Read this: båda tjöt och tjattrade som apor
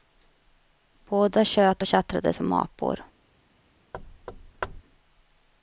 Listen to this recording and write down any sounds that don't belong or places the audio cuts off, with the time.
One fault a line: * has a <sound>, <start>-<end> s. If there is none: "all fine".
* has a thud, 3.9-4.8 s